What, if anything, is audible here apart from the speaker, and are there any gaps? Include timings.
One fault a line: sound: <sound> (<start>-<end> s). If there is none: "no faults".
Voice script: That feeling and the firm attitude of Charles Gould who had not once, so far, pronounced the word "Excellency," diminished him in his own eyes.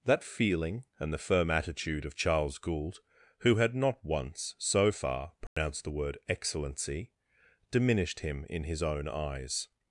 sound: dropout (5.5-5.6 s)